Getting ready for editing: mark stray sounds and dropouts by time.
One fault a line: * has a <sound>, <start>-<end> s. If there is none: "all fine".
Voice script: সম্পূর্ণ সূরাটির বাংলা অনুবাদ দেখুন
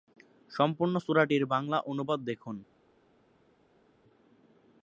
all fine